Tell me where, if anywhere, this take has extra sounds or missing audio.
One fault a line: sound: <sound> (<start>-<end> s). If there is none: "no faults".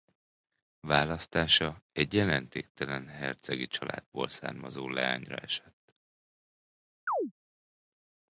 sound: chirp (7.1-7.3 s)